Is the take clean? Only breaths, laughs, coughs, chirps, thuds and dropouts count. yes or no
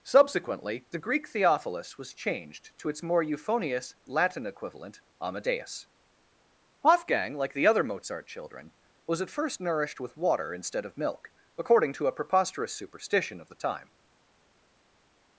yes